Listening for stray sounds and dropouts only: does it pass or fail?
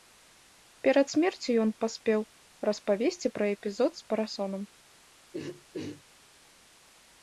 fail